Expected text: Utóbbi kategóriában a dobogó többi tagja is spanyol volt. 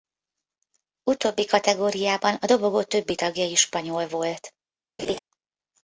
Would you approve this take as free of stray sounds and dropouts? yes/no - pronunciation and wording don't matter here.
no